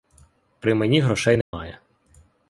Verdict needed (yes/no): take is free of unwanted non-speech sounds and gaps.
no